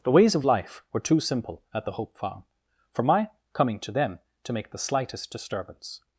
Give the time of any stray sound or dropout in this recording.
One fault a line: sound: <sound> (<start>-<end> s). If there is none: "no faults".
no faults